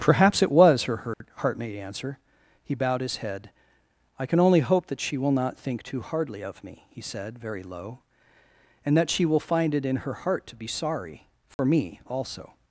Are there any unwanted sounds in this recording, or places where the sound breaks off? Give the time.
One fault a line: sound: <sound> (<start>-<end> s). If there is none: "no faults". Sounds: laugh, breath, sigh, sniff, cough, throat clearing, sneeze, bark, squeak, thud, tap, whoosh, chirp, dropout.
sound: dropout (1.1-1.2 s)
sound: dropout (11.5-11.6 s)